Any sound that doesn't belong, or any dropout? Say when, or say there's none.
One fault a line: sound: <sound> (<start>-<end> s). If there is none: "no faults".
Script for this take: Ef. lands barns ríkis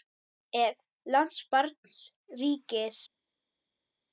no faults